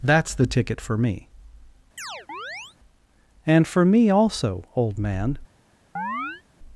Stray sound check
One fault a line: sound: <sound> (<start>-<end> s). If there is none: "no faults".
sound: chirp (2.0-2.8 s)
sound: chirp (6.0-6.4 s)